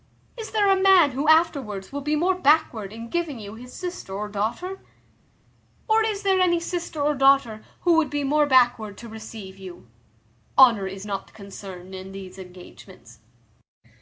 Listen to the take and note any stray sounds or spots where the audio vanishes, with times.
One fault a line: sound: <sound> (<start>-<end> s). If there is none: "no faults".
no faults